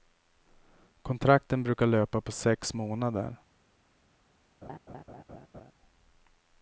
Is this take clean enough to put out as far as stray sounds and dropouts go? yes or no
no